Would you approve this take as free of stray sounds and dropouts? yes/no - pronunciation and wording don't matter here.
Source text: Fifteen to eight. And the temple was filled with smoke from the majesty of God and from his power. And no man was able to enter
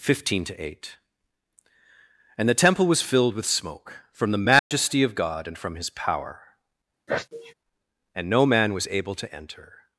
no